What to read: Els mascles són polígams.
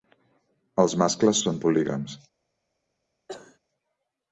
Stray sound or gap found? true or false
true